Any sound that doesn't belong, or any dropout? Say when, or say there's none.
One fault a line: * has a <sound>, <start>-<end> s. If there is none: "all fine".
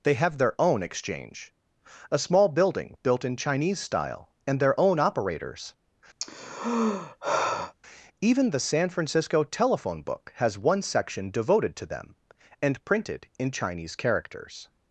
* has a sigh, 6.2-7.7 s